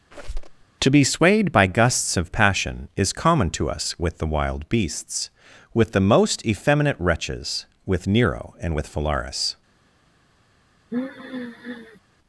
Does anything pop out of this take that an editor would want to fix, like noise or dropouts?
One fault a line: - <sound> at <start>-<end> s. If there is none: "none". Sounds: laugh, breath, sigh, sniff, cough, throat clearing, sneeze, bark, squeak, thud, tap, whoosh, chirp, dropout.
- squeak at 0.1-0.6 s
- sigh at 10.9-12.0 s